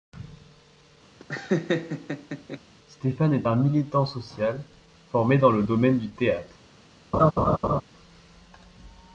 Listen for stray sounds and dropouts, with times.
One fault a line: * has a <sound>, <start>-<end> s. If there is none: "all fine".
* has a laugh, 1.2-2.6 s
* has a laugh, 7.1-7.8 s